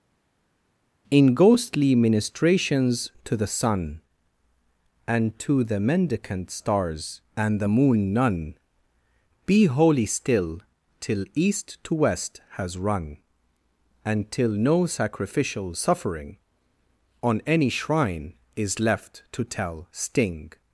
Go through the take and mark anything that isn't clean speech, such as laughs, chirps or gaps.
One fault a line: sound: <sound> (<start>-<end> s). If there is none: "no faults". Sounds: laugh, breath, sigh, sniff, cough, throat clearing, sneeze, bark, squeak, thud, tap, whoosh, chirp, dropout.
no faults